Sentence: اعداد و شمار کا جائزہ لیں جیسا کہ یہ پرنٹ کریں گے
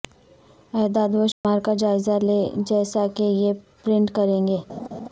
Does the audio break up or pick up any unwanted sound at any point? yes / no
yes